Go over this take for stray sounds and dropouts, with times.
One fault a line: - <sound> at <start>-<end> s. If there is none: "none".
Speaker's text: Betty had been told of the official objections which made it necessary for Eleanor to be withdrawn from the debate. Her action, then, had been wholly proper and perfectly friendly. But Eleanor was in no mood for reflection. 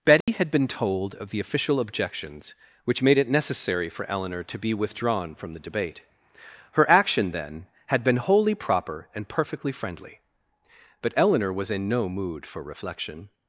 - dropout at 0.2-0.3 s